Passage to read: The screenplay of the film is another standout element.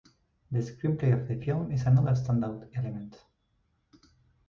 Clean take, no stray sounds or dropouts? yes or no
yes